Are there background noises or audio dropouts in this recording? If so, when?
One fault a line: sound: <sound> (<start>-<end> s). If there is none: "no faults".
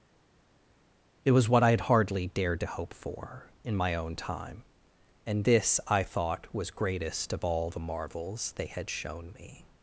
no faults